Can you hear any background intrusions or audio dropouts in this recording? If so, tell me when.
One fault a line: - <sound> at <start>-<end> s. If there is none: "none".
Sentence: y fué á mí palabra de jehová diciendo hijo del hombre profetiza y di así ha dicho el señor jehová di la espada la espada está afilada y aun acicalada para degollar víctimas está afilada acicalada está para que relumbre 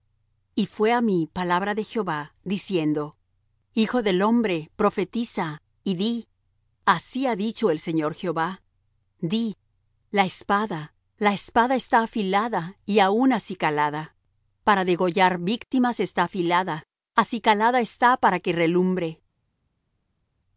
none